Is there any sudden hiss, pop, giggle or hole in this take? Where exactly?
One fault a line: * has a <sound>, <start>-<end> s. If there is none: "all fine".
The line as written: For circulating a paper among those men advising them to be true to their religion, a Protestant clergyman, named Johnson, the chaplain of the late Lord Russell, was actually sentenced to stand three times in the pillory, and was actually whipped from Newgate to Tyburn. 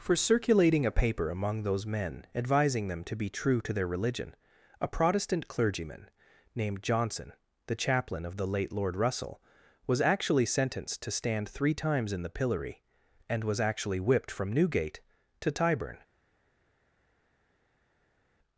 all fine